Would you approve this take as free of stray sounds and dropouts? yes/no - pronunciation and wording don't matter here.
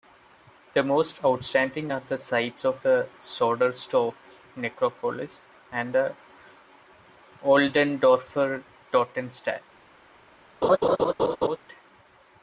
no